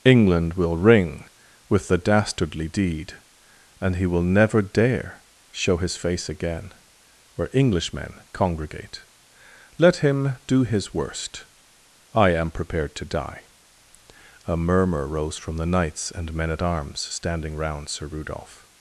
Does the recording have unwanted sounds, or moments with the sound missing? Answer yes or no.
no